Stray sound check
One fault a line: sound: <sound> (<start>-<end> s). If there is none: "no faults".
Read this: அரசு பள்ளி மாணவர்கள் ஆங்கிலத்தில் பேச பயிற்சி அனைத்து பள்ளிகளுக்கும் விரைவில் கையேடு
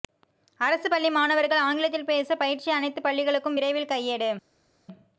no faults